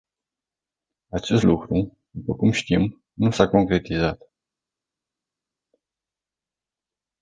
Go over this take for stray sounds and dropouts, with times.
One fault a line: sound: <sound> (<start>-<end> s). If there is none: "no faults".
no faults